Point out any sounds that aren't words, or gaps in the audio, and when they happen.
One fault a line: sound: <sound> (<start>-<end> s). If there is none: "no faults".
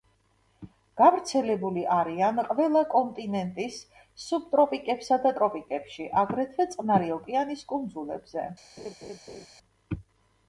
sound: laugh (8.8-9.5 s)